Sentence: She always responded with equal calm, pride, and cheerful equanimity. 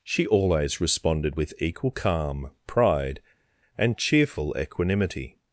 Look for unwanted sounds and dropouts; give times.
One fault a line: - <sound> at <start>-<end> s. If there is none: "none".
none